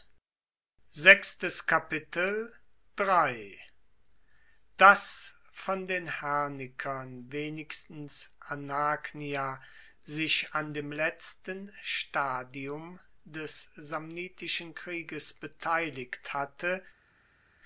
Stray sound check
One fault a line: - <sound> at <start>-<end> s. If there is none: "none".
none